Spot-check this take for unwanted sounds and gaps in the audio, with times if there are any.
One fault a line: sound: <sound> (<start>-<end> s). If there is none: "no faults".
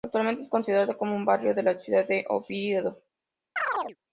sound: chirp (3.6-4.0 s)